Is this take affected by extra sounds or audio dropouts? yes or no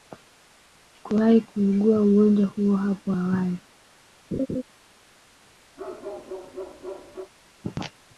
yes